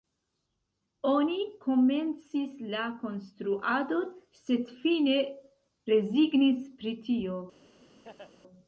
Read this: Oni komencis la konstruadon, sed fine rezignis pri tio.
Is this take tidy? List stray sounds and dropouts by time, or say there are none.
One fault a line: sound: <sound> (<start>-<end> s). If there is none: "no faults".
sound: laugh (8.0-8.3 s)